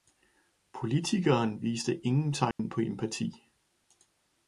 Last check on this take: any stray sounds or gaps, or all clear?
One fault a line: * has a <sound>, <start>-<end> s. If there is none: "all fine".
* has a dropout, 2.5-2.6 s